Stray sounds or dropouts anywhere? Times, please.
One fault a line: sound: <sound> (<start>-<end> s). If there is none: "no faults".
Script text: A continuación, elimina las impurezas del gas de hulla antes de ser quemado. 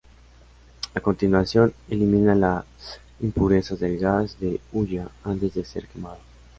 no faults